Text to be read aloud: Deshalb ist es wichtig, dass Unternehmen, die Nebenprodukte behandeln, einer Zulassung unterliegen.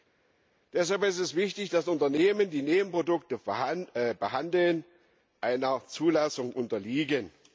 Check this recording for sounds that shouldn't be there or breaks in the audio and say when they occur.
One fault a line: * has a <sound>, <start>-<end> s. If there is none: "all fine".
all fine